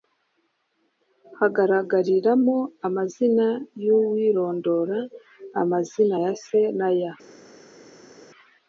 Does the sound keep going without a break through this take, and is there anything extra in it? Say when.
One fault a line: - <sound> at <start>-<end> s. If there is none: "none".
none